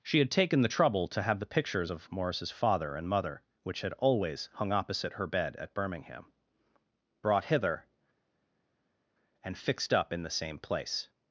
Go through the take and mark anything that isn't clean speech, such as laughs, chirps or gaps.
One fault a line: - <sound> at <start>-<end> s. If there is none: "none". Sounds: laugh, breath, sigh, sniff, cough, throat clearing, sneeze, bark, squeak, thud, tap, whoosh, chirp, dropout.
none